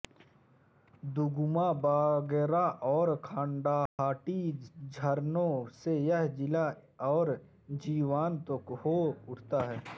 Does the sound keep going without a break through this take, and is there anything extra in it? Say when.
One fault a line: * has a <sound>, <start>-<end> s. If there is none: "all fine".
* has a dropout, 3.9-4.0 s